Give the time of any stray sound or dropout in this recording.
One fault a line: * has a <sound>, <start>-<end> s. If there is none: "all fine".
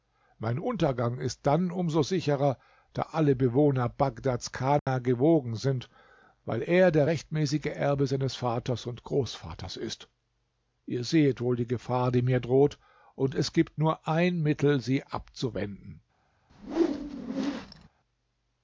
* has a dropout, 4.8-4.9 s
* has a whoosh, 16.5-17.9 s